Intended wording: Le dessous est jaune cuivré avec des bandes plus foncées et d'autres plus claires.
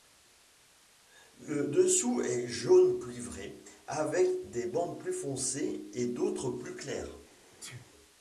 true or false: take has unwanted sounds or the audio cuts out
true